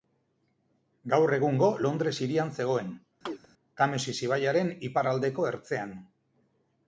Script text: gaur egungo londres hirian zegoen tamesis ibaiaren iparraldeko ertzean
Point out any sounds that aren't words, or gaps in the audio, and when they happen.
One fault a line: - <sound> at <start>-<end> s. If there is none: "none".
- chirp at 3.3-3.5 s